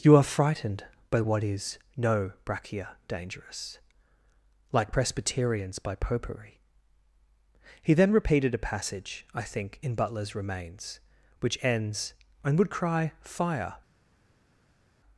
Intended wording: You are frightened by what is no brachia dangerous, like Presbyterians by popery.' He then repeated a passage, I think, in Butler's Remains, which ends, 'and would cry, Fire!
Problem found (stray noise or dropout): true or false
false